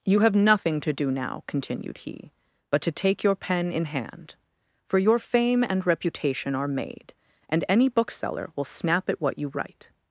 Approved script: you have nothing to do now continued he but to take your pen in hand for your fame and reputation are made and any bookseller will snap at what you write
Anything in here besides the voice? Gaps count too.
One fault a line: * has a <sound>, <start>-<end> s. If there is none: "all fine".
all fine